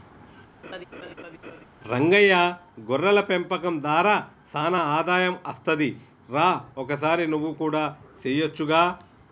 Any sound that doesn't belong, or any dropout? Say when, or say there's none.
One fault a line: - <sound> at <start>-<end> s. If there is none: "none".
- laugh at 0.6-1.7 s